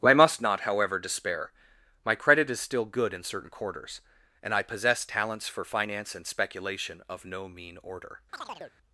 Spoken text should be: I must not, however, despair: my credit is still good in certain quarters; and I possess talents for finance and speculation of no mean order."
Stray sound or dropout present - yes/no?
yes